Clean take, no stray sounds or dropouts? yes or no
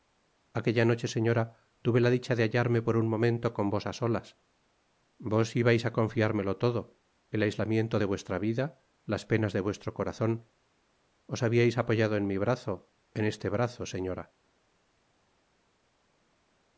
yes